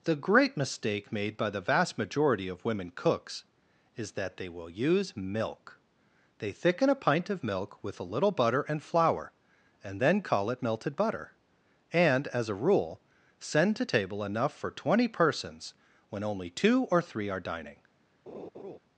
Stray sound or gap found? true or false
true